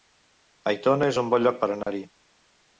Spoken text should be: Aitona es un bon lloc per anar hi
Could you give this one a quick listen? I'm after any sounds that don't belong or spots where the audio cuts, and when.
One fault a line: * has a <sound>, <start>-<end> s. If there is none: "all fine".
* has a dropout, 1.8-1.9 s